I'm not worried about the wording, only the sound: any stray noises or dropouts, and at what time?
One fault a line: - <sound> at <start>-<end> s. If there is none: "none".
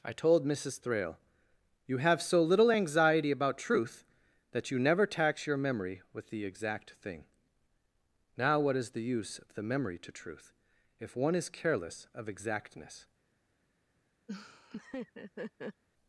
- laugh at 14.3-15.8 s